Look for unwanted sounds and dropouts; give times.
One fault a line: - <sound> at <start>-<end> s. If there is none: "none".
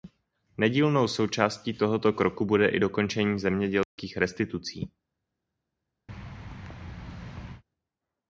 - dropout at 3.8-4.0 s
- thud at 6.1-7.6 s